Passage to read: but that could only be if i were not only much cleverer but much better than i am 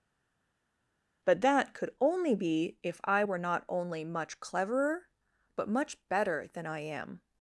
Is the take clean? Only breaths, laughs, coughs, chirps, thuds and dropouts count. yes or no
yes